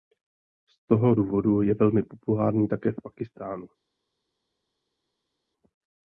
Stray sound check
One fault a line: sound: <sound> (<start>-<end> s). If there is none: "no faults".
no faults